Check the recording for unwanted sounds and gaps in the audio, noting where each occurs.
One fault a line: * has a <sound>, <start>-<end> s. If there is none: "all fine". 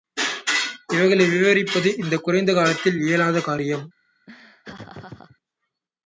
* has a laugh, 4.3-5.4 s